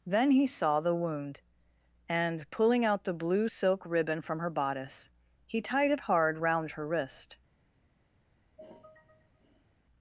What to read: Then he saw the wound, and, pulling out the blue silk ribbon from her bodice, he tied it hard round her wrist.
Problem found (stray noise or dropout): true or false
true